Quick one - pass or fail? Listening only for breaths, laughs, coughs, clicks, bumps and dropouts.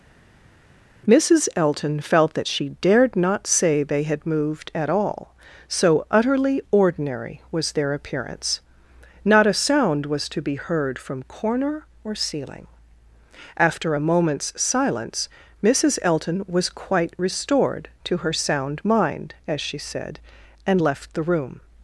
pass